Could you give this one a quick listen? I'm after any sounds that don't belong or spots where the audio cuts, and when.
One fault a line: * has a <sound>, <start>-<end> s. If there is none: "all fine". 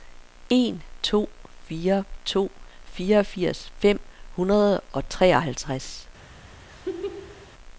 * has a laugh, 6.7-7.5 s